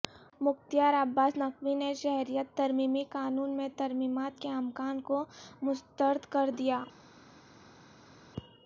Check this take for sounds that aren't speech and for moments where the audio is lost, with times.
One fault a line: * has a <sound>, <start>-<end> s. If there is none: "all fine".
all fine